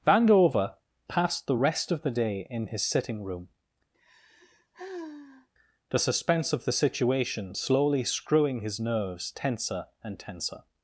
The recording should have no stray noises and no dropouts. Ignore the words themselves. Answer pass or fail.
fail